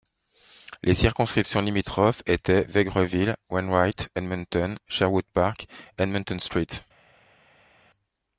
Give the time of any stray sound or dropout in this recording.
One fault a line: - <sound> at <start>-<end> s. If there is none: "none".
none